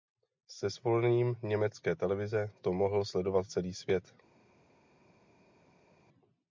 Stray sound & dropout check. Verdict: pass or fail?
pass